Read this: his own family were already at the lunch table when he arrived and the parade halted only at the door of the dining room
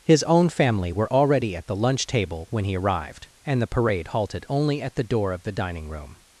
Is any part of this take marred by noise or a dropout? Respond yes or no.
no